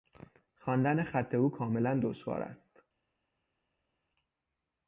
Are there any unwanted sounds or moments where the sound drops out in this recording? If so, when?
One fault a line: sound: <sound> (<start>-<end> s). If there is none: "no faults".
no faults